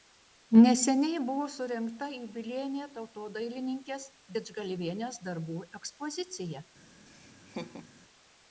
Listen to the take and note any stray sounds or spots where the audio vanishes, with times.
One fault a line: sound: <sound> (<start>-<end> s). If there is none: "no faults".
sound: laugh (7.1-7.9 s)